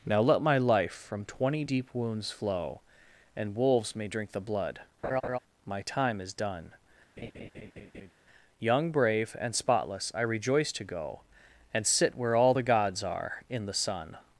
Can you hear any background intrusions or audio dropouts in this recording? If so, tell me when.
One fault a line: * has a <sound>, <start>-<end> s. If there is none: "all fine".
* has a laugh, 5.0-5.4 s
* has a laugh, 7.2-8.1 s